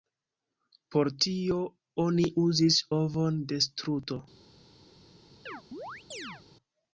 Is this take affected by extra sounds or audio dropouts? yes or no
yes